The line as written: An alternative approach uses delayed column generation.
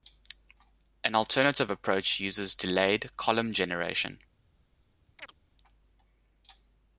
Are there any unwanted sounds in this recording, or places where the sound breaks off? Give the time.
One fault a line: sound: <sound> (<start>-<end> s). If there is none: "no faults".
sound: chirp (5.2-5.4 s)